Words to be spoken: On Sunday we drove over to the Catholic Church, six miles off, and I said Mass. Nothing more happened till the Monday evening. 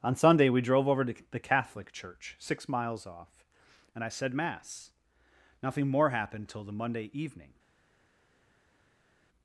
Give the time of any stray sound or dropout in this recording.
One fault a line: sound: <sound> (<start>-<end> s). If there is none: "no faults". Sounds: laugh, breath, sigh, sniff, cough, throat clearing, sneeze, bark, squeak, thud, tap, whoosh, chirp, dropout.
no faults